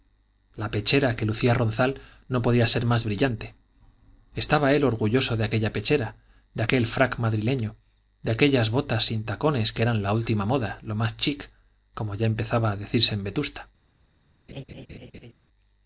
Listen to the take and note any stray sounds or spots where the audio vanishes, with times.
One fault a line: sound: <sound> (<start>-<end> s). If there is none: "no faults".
sound: laugh (14.5-15.3 s)